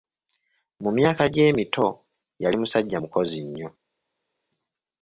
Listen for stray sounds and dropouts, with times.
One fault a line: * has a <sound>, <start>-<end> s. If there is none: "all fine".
all fine